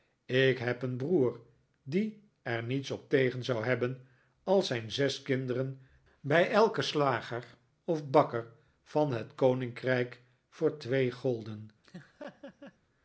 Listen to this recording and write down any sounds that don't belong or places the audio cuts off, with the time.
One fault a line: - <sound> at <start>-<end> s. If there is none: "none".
- laugh at 11.8-12.8 s